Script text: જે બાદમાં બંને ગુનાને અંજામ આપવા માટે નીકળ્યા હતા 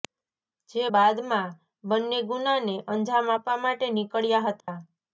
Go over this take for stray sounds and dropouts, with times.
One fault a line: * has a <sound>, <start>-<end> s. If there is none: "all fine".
* has a dropout, 4.6-4.7 s